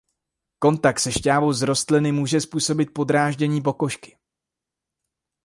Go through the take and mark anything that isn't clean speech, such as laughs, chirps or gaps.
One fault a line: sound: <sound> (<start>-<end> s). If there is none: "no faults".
no faults